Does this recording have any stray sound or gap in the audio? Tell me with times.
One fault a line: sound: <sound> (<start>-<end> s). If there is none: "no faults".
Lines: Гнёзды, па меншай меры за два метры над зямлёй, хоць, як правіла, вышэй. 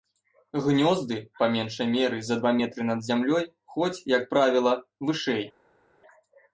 no faults